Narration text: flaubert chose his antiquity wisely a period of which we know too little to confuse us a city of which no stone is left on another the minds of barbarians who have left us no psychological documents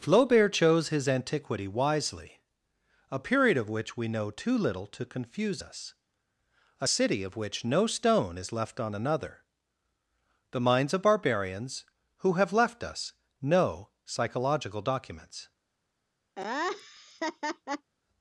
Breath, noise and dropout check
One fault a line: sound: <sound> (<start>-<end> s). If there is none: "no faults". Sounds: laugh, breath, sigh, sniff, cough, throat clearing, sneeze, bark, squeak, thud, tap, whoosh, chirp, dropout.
sound: laugh (16.4-17.9 s)